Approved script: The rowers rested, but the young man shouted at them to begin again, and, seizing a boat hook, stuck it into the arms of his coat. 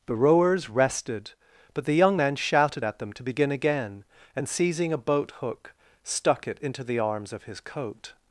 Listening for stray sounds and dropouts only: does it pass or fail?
pass